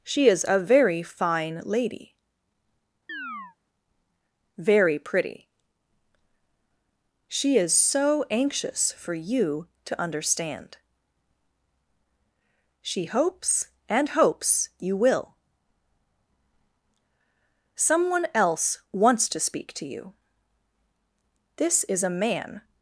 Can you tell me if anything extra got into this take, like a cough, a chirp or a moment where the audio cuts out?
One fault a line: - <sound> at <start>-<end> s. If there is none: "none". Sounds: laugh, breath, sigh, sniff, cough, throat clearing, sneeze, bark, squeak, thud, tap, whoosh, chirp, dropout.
- chirp at 3.1-3.6 s